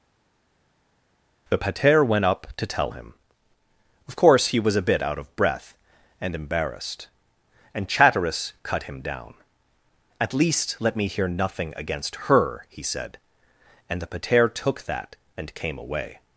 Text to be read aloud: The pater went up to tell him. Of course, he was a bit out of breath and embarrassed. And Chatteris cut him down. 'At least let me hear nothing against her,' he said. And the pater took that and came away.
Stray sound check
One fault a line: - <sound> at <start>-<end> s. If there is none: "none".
none